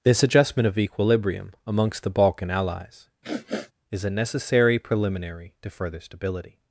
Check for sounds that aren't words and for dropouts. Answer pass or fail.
fail